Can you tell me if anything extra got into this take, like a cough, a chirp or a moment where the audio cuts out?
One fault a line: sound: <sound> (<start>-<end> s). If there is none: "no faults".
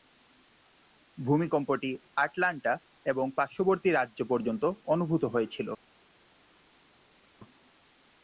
no faults